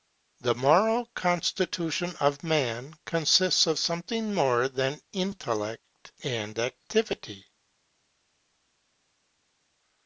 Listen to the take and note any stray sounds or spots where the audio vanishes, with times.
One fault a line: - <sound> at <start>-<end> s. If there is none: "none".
none